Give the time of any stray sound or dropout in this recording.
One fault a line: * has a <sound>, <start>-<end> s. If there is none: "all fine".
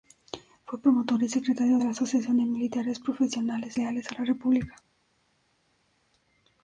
all fine